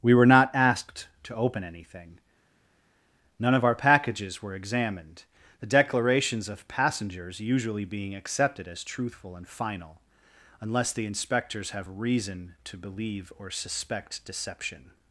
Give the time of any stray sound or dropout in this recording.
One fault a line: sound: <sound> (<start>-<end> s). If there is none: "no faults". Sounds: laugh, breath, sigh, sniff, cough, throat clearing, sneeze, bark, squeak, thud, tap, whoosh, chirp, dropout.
no faults